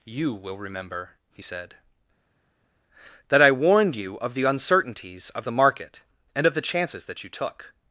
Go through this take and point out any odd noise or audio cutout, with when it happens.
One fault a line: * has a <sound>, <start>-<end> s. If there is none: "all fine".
all fine